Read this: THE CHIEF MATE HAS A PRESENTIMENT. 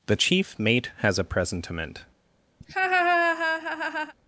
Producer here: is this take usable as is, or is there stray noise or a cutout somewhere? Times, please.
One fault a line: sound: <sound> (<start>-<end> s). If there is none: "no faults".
sound: laugh (2.6-4.1 s)